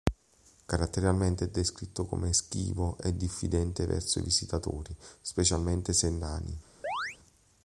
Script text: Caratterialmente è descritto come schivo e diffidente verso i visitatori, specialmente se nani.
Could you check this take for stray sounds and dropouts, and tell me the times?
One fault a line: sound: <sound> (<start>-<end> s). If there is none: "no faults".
sound: chirp (6.8-7.2 s)